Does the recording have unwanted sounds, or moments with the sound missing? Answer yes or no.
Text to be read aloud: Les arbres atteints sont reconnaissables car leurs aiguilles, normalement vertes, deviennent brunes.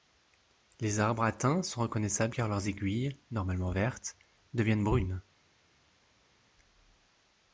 no